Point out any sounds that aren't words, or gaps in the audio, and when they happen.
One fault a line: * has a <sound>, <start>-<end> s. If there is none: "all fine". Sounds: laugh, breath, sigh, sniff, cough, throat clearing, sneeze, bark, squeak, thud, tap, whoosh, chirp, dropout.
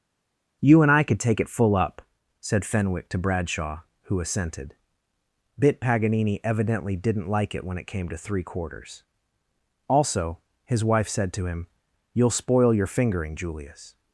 all fine